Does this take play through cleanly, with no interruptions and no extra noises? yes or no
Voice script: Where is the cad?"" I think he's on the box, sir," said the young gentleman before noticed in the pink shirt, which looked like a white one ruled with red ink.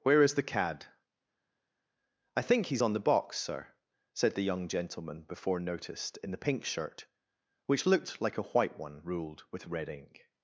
yes